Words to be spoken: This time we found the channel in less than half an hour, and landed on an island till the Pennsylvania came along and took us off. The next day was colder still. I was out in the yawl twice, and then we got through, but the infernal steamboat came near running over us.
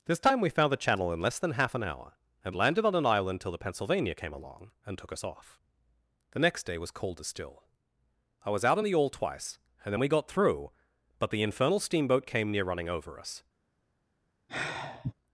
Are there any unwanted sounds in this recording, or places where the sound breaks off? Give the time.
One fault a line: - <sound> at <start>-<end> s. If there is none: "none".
- sigh at 14.5-15.1 s